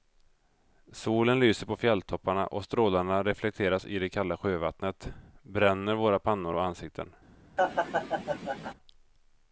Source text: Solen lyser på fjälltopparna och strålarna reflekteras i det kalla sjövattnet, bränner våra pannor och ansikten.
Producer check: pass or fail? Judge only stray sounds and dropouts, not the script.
fail